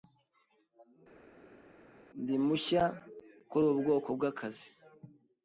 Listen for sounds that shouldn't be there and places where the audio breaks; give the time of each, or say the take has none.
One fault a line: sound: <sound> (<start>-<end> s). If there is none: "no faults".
no faults